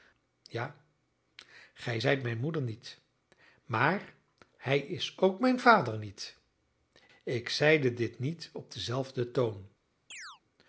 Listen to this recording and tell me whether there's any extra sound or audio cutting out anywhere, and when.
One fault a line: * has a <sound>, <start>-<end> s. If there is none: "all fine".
* has a chirp, 10.1-10.4 s